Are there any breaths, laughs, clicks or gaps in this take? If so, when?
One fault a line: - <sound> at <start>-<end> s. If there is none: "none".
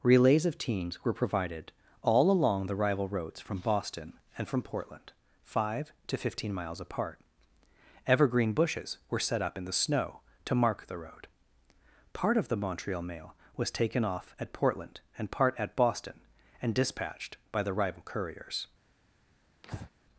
- breath at 19.6-19.9 s